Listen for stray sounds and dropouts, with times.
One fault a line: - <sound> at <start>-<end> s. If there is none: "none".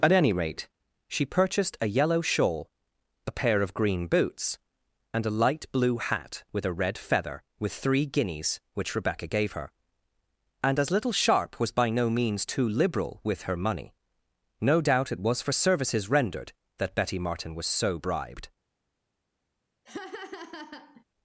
- laugh at 19.9-21.0 s